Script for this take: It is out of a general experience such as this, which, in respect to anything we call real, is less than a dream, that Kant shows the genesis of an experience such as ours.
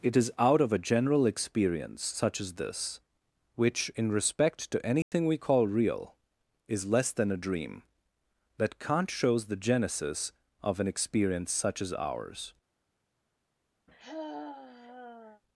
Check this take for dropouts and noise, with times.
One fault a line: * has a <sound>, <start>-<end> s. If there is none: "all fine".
* has a dropout, 5.0-5.1 s
* has a sigh, 13.9-15.4 s